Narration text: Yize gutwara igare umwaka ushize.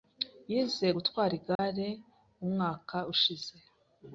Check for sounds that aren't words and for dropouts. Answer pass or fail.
fail